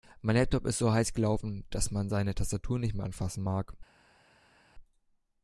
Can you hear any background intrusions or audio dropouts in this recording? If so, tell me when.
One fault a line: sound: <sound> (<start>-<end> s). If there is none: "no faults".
no faults